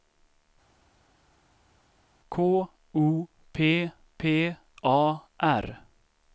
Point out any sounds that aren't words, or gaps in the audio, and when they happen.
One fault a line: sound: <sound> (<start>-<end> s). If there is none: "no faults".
no faults